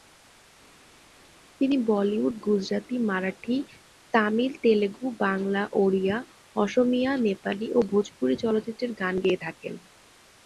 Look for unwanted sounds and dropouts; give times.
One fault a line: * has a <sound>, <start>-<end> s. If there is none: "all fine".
all fine